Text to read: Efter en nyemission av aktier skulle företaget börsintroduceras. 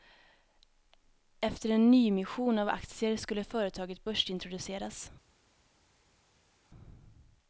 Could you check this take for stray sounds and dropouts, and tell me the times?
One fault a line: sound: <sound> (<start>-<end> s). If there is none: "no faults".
no faults